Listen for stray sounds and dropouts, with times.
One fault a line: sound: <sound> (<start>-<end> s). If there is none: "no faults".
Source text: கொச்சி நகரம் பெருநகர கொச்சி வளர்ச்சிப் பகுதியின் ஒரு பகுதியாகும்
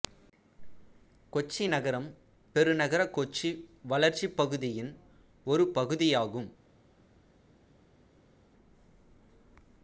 no faults